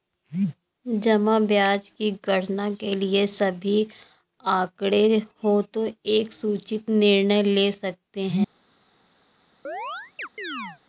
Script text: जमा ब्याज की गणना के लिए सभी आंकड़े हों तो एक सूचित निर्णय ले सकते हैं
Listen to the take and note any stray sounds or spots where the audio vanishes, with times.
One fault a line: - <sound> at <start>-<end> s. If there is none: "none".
- chirp at 9.6-10.8 s